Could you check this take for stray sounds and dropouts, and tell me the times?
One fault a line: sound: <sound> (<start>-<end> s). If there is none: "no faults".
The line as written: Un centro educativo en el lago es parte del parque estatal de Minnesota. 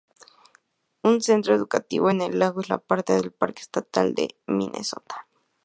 no faults